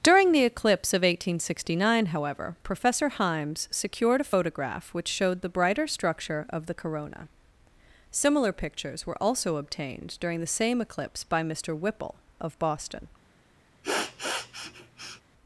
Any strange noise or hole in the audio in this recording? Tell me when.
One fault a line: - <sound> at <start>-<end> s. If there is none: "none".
- sniff at 13.8-15.2 s